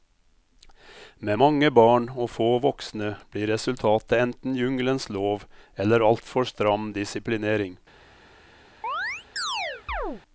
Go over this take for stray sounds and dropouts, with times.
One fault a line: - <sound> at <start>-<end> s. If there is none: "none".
- chirp at 8.8-10.2 s